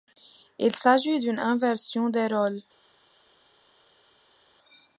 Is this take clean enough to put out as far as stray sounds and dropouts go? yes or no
yes